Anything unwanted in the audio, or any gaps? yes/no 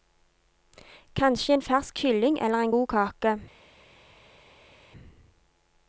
no